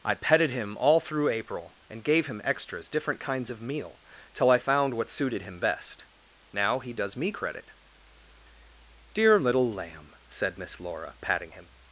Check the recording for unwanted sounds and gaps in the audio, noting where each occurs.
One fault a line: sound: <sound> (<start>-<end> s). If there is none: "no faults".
no faults